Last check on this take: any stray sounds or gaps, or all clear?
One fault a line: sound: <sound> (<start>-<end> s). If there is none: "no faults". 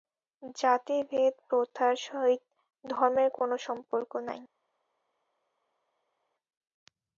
no faults